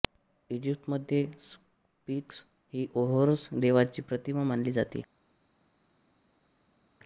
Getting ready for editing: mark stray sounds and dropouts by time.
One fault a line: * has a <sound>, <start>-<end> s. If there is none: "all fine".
all fine